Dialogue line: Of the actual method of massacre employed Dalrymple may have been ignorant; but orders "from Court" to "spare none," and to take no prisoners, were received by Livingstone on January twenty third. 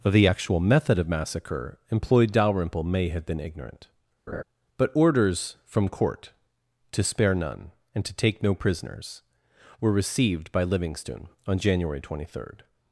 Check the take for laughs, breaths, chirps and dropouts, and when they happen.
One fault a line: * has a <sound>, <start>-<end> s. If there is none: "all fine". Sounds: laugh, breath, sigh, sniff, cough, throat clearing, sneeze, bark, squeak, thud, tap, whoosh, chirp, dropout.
* has a laugh, 4.3-4.4 s